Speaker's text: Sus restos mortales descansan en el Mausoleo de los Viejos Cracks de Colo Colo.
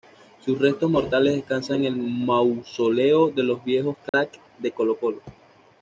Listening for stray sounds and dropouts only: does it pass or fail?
fail